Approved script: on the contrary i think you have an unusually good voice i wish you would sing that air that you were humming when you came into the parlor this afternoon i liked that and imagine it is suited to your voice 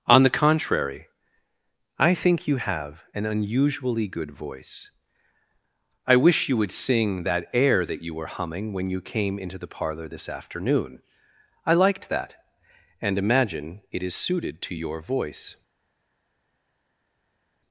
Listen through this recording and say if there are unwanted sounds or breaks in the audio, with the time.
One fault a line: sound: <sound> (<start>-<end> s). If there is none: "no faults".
no faults